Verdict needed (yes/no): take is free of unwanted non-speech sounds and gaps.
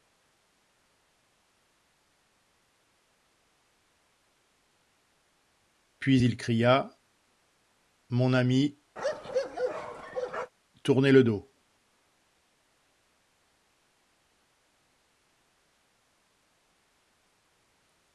no